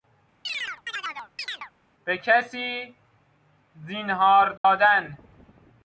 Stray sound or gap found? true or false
true